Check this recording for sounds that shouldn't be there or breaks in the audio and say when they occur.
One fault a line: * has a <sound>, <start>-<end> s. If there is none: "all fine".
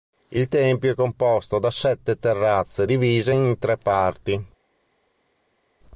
all fine